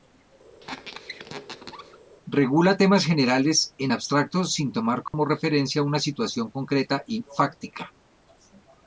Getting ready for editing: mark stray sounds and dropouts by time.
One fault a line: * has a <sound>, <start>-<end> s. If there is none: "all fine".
* has a squeak, 0.6-2.0 s
* has a dropout, 5.1-5.1 s